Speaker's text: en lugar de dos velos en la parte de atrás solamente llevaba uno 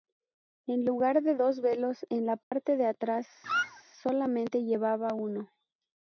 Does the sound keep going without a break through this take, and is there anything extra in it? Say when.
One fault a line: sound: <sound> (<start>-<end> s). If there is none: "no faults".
sound: dropout (2.4-2.5 s)
sound: squeak (3.4-3.8 s)